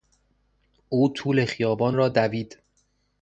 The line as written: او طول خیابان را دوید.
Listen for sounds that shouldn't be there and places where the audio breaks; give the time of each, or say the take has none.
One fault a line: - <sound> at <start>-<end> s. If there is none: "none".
none